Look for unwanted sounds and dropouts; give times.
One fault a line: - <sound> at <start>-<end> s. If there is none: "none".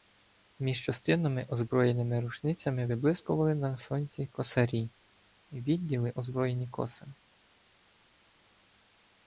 none